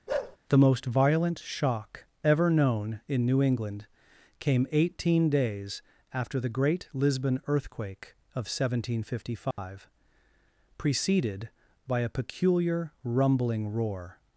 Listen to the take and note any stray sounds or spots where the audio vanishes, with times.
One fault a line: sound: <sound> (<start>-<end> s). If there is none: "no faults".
sound: bark (0.1-0.4 s)
sound: dropout (9.5-9.6 s)